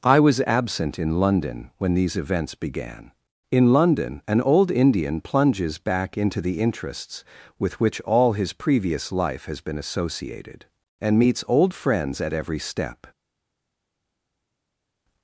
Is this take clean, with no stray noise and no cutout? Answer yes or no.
yes